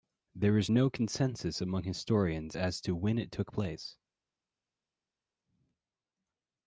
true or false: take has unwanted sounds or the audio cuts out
false